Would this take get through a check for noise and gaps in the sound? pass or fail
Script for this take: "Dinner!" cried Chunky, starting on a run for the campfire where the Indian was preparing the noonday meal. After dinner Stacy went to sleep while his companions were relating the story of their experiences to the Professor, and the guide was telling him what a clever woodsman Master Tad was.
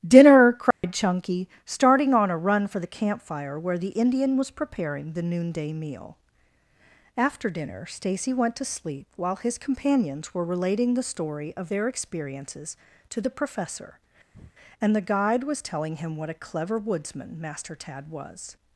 fail